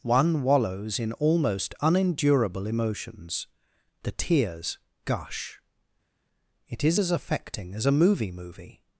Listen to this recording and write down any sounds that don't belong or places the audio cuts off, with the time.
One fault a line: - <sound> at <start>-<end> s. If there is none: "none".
none